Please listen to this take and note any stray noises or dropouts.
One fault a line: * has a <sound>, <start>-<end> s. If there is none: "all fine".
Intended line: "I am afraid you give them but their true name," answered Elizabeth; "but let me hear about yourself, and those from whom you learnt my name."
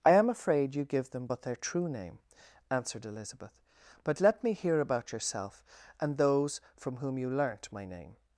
all fine